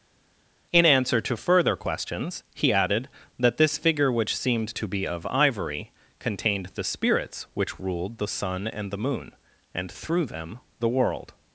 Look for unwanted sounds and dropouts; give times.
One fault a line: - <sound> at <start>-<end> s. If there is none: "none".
none